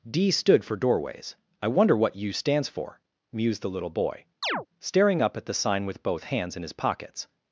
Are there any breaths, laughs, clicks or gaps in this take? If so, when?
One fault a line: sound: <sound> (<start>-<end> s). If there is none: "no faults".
sound: chirp (4.4-4.7 s)